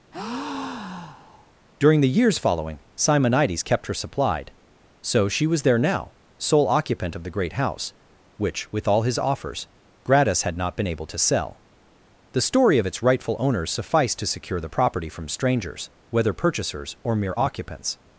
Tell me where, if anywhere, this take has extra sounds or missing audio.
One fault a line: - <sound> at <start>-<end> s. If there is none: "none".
- breath at 0.1-1.5 s